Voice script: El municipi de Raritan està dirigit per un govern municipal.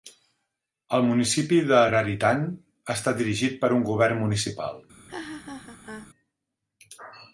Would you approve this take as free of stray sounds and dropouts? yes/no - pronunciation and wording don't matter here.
no